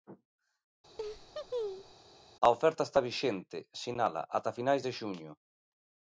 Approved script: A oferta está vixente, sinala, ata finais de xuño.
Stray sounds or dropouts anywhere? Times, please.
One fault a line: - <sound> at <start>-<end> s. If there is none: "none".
- laugh at 1.0-1.9 s